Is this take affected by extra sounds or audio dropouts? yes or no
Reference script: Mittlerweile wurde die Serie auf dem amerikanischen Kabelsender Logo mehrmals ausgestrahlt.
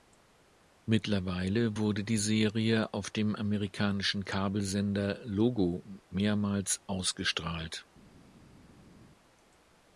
no